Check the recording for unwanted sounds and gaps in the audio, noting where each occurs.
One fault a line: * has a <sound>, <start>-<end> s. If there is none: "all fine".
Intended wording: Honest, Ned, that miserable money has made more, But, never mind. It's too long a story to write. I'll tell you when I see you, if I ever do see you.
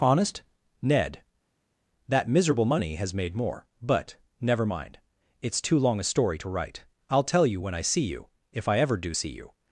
all fine